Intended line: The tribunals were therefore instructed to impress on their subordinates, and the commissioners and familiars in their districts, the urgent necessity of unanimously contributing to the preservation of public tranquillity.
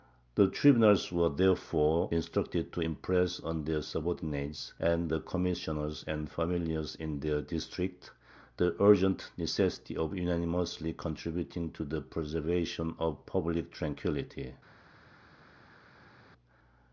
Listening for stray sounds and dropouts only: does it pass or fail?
pass